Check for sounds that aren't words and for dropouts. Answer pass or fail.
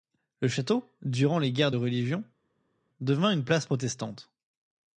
pass